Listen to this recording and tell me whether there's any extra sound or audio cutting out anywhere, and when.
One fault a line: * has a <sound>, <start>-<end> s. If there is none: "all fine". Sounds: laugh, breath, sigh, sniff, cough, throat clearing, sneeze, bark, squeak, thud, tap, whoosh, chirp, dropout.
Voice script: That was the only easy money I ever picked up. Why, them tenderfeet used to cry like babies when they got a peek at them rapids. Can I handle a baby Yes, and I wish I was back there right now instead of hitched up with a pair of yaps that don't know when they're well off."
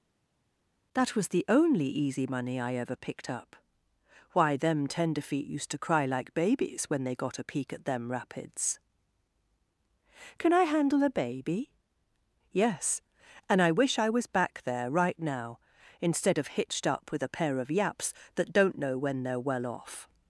all fine